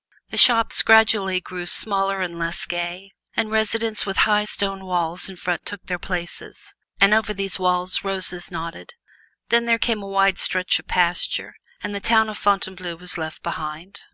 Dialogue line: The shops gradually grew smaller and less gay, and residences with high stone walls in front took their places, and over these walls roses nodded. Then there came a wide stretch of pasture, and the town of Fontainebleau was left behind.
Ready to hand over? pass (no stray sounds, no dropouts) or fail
pass